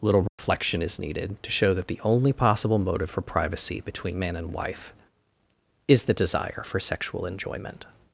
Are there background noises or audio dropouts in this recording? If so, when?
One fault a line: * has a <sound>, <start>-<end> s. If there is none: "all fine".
* has a dropout, 0.3-0.4 s